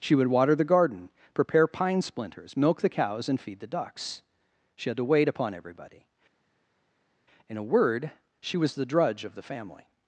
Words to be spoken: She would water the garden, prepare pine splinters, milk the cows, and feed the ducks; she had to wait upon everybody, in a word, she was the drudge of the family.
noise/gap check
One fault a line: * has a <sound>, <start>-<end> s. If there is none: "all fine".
all fine